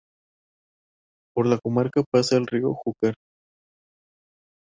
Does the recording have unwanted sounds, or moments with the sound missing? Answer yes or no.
no